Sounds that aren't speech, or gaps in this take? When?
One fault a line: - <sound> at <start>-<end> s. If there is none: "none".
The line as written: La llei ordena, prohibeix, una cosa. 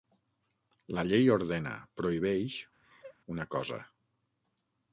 - laugh at 2.8-3.2 s